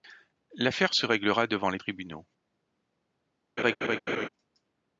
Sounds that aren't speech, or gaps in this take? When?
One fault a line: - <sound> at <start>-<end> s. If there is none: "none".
- laugh at 3.6-4.3 s